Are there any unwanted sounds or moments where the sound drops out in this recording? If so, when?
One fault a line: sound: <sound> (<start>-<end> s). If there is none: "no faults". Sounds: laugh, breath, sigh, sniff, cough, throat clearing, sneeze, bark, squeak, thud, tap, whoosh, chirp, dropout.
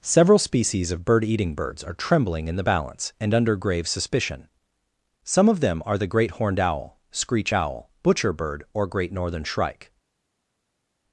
no faults